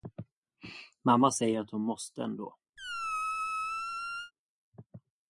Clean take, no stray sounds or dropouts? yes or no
no